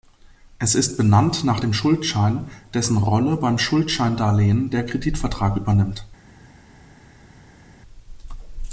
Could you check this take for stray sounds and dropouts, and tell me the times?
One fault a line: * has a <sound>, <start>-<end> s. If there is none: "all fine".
all fine